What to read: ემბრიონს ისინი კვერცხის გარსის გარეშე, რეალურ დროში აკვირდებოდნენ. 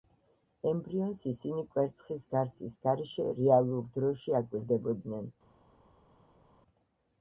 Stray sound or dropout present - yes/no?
no